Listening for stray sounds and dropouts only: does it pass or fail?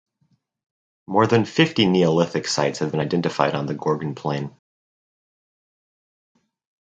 pass